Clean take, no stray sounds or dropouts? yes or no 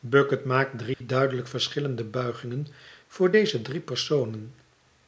no